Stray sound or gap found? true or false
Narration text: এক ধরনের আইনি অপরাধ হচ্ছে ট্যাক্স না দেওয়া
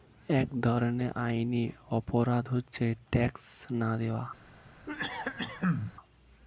true